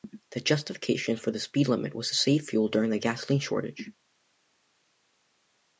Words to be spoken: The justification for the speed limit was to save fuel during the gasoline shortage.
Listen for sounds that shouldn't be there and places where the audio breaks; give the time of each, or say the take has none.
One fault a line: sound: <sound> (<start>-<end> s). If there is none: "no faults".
no faults